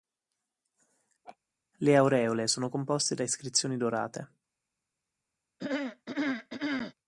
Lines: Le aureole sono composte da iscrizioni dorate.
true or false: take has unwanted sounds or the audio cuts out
true